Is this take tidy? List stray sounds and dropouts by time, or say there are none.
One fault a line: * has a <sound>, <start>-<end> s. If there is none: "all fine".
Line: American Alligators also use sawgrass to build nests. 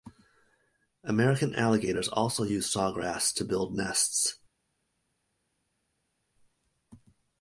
all fine